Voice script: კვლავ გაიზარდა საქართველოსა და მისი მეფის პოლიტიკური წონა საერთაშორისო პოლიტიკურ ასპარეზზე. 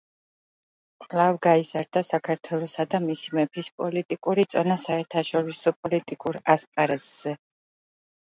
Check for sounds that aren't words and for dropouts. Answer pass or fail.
pass